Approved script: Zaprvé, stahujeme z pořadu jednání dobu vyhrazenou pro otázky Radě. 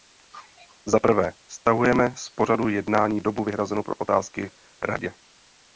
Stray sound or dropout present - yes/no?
no